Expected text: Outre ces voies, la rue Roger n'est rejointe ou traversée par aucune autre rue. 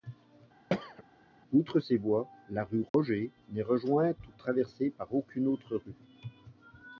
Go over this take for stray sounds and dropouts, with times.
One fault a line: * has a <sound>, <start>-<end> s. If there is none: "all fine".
* has a throat clearing, 0.7-1.0 s
* has a dropout, 2.9-2.9 s